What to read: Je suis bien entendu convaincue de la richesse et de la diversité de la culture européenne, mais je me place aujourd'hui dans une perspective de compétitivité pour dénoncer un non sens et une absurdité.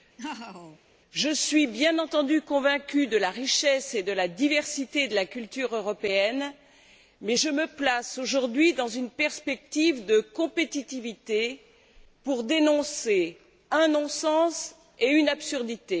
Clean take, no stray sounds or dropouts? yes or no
no